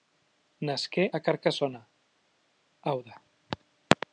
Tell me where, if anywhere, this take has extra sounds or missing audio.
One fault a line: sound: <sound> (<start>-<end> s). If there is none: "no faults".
no faults